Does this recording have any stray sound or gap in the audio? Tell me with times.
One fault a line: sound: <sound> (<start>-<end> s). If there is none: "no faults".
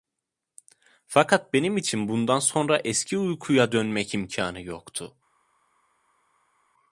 no faults